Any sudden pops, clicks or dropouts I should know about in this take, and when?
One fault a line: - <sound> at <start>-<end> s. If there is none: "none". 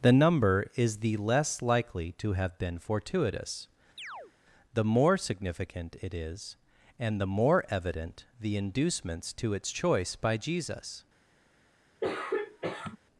- chirp at 4.0-4.3 s
- throat clearing at 12.0-13.0 s